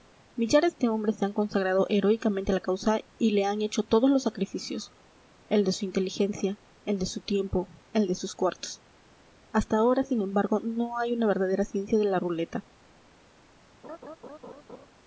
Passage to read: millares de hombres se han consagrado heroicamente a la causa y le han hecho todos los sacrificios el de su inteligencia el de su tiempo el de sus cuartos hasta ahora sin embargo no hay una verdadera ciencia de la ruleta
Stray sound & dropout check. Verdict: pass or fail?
fail